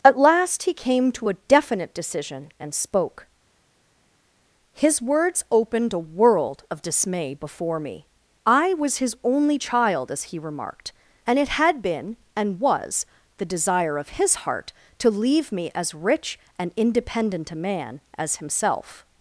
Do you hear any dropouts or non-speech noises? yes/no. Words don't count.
no